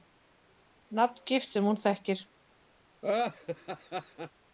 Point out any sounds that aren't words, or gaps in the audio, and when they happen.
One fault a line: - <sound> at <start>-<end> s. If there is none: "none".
- laugh at 3.0-4.3 s